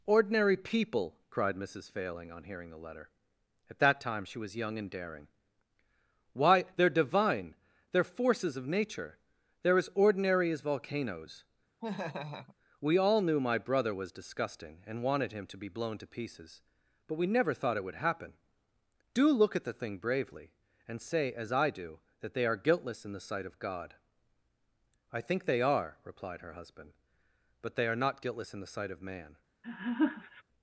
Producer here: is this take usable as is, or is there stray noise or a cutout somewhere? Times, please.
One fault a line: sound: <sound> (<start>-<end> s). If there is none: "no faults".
sound: laugh (11.8-12.6 s)
sound: laugh (29.6-30.4 s)